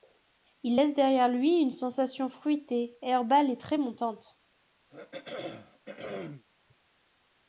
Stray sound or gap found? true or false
true